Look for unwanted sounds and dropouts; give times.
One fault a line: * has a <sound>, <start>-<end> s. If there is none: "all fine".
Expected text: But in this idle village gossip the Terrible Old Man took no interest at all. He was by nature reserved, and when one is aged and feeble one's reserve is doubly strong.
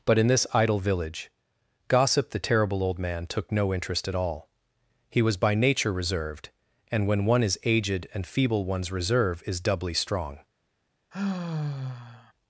* has a sigh, 11.1-12.3 s